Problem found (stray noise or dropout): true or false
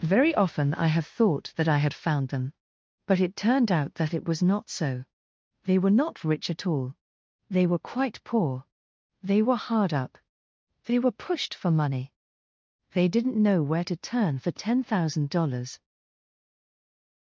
false